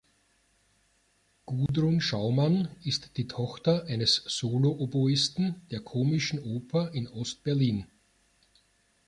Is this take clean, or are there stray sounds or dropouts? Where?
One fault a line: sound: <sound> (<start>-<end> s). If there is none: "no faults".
sound: dropout (1.7-1.7 s)